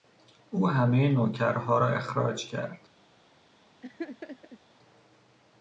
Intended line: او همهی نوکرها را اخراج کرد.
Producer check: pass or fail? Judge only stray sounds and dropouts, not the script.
fail